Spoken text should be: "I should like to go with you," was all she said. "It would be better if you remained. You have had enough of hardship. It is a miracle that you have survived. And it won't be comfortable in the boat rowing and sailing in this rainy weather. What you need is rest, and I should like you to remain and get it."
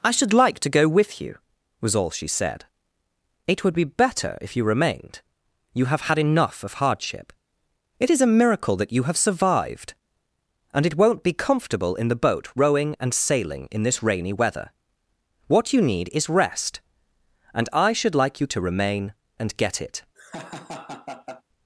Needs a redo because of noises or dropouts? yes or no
yes